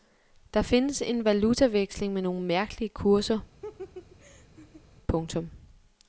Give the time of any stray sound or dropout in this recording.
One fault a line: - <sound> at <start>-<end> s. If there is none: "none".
- laugh at 3.6-4.8 s